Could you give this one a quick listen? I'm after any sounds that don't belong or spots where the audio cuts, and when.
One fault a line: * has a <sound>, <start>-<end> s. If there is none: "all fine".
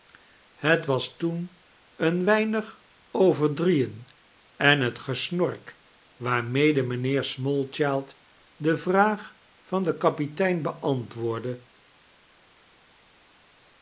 all fine